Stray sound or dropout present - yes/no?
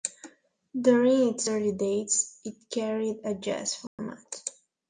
yes